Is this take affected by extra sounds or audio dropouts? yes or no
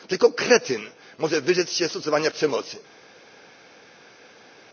no